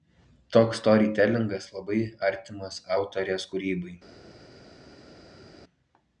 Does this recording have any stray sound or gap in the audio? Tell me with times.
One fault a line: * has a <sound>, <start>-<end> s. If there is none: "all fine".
all fine